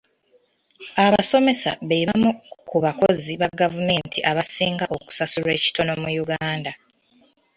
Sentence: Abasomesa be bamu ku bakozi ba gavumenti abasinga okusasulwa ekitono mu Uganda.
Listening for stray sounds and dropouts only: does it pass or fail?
pass